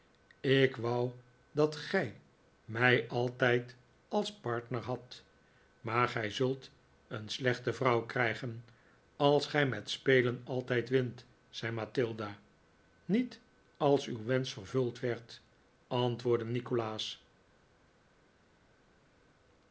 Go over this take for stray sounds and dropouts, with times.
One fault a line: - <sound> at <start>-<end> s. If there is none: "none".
none